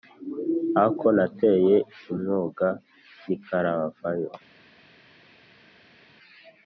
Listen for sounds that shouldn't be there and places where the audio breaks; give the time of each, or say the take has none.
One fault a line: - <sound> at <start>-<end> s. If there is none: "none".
none